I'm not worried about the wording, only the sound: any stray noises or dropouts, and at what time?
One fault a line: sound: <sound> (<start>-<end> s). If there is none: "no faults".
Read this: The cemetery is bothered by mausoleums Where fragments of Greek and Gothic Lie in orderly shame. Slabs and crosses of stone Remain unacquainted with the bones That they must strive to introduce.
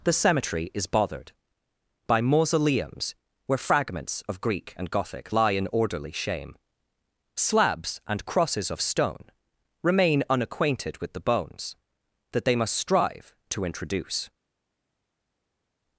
no faults